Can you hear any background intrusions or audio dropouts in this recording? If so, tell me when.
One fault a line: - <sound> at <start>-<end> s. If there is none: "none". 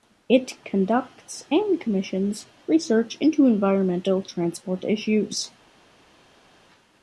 none